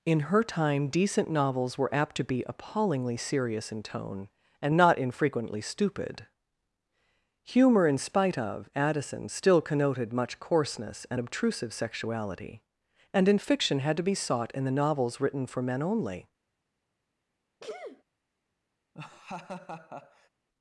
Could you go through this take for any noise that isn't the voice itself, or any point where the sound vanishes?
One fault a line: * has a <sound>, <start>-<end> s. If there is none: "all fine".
* has a sneeze, 17.6-18.0 s
* has a laugh, 18.9-20.3 s